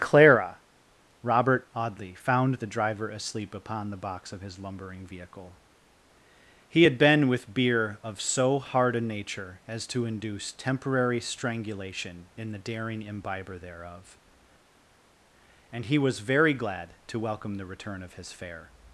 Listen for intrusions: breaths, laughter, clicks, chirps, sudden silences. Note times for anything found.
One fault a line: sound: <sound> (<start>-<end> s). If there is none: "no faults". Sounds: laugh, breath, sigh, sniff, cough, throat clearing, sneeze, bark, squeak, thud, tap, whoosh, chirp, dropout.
no faults